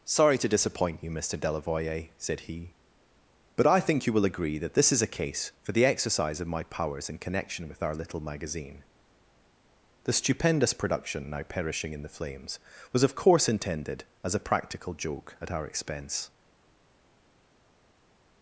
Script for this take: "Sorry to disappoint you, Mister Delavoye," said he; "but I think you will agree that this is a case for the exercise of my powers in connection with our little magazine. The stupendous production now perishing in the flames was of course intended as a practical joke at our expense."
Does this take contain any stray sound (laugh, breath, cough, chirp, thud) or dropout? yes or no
no